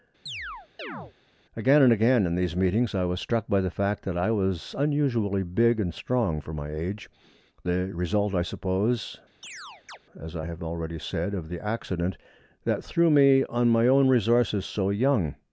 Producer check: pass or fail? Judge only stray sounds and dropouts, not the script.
fail